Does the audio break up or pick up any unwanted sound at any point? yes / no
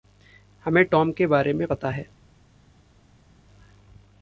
no